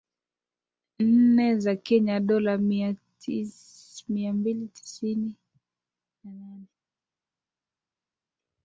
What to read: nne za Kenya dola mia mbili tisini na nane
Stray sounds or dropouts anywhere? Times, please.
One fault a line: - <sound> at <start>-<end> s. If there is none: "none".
none